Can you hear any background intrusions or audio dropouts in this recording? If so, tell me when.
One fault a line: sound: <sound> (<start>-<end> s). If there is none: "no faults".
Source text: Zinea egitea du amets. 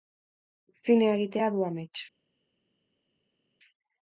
no faults